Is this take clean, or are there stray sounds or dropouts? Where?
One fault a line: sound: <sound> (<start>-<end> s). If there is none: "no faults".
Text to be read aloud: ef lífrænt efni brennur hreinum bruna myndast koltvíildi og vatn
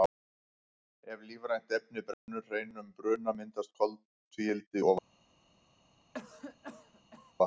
sound: dropout (2.1-2.3 s)
sound: cough (6.1-7.3 s)